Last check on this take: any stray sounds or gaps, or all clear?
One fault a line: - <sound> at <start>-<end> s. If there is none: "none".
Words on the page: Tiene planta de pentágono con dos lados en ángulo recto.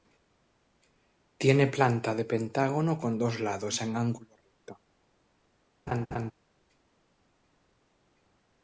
- laugh at 5.9-6.3 s